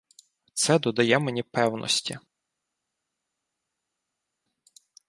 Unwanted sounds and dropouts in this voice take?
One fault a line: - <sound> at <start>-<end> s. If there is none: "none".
none